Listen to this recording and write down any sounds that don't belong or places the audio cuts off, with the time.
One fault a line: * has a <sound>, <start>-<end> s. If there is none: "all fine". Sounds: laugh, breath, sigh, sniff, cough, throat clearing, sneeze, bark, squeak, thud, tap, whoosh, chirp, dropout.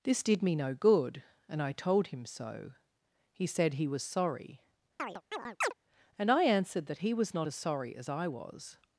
* has a chirp, 5.0-5.7 s